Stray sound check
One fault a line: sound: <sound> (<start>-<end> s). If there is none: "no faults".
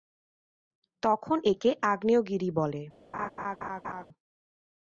sound: laugh (3.1-4.1 s)